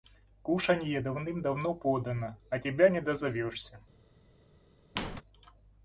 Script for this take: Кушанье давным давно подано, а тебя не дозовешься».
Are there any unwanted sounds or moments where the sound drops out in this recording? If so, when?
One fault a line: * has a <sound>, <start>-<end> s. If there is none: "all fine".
* has a squeak, 5.0-5.2 s